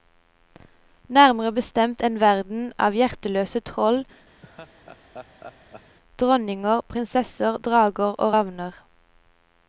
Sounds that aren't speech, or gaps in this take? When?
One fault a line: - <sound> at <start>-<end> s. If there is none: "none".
- laugh at 4.4-6.0 s